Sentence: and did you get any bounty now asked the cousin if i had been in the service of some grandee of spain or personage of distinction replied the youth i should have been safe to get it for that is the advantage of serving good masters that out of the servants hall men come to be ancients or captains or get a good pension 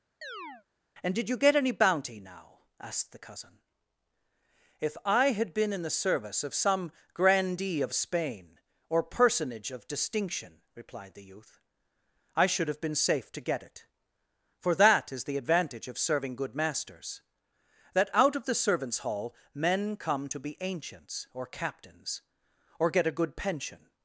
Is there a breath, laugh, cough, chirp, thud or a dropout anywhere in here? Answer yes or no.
yes